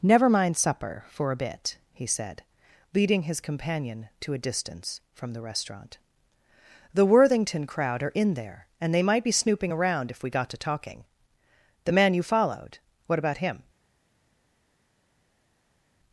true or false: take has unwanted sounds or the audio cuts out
false